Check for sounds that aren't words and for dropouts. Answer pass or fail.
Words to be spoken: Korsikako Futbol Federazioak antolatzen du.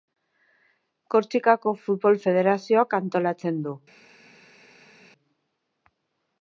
pass